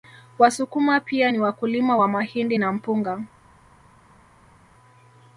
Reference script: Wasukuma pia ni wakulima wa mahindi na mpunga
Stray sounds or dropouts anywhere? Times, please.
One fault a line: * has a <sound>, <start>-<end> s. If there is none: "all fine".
all fine